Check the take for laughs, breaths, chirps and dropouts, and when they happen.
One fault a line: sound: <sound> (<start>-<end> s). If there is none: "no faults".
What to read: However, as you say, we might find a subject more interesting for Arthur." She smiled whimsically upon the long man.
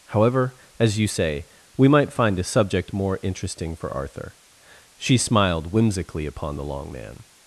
no faults